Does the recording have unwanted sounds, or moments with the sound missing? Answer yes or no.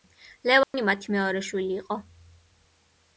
yes